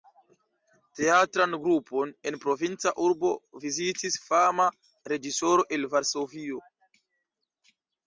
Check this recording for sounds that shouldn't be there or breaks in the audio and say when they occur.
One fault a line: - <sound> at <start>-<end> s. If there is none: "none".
none